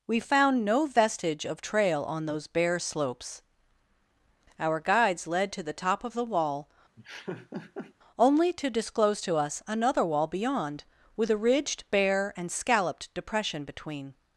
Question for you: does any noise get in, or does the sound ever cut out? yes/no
yes